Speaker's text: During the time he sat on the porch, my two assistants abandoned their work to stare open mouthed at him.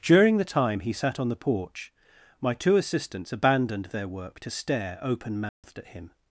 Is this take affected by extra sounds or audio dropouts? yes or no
yes